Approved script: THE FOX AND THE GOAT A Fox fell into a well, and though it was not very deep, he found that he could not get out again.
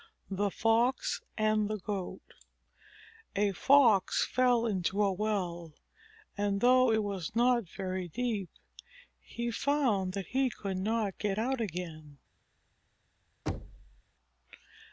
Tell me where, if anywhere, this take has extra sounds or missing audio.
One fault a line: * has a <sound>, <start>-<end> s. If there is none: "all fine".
* has a thud, 13.5-14.0 s